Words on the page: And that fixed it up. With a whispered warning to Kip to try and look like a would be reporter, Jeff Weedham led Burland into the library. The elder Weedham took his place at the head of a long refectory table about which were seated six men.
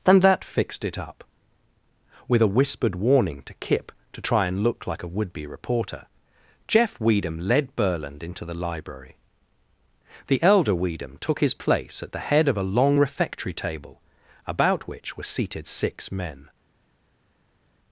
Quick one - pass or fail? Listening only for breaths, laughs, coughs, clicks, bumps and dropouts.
pass